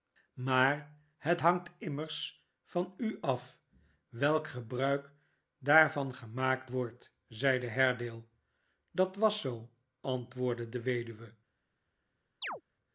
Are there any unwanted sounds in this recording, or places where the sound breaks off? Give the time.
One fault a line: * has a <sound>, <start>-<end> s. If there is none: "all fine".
* has a chirp, 12.4-12.6 s